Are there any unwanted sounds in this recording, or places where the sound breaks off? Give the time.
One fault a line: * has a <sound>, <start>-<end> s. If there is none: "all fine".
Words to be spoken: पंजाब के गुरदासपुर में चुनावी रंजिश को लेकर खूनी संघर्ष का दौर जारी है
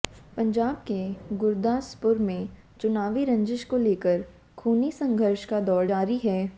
all fine